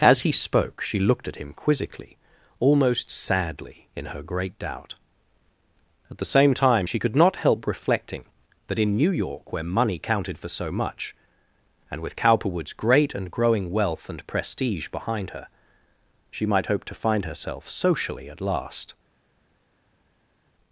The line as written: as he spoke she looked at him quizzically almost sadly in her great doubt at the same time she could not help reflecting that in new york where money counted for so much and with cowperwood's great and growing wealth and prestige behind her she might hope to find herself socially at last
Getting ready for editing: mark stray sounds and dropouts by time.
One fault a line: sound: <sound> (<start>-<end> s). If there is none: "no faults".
no faults